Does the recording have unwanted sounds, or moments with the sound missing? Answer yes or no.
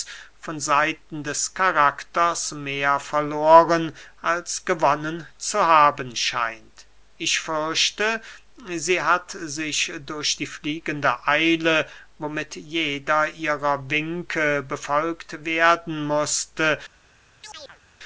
yes